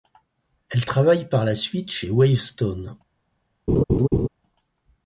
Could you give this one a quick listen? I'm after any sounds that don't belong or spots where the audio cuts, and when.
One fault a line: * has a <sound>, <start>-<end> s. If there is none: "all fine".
* has a laugh, 3.7-4.3 s